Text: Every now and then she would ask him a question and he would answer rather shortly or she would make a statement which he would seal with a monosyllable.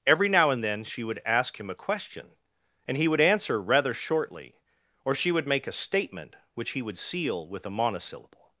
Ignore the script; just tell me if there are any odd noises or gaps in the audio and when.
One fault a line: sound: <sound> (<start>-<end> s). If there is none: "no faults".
no faults